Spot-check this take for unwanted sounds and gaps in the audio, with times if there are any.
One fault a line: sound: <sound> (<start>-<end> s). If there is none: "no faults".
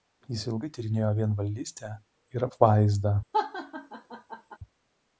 sound: laugh (3.3-4.6 s)